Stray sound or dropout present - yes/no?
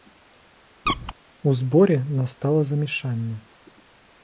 yes